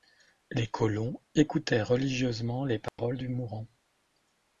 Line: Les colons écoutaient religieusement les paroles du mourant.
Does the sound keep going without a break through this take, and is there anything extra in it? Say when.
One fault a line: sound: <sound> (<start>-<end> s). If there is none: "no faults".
sound: dropout (2.9-3.0 s)